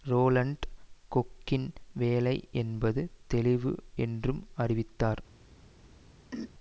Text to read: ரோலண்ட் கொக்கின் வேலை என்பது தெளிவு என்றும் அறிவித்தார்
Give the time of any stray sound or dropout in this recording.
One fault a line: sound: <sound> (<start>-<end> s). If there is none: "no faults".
sound: throat clearing (6.3-6.5 s)